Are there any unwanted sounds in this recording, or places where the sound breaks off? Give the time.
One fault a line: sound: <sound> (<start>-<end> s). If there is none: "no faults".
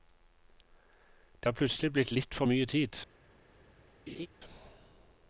sound: laugh (4.1-4.3 s)